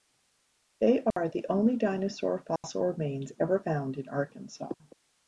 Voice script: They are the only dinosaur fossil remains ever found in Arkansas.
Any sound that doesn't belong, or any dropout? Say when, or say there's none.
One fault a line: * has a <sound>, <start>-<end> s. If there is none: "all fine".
* has a dropout, 1.1-1.2 s
* has a dropout, 2.6-2.6 s